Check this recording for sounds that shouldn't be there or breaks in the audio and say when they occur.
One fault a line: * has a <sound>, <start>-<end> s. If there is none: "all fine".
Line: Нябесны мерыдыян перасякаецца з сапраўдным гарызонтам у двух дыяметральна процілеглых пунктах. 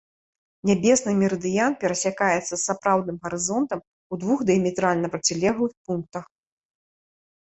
all fine